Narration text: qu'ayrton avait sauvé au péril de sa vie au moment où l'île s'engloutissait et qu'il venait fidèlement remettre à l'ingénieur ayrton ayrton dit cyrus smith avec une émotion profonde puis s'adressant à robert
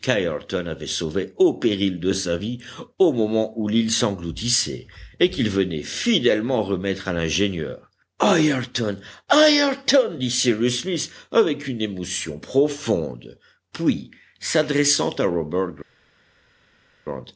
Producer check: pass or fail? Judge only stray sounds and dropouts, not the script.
pass